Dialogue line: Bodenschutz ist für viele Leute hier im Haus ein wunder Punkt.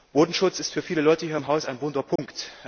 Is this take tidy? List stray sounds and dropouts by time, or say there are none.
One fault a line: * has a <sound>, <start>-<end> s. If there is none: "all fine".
* has a dropout, 2.2-2.2 s